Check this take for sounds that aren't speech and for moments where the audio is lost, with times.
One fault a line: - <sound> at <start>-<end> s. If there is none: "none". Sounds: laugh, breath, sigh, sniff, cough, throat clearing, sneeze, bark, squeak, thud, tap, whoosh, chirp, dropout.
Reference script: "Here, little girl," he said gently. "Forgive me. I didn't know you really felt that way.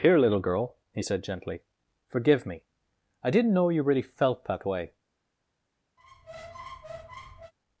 - squeak at 6.0-7.5 s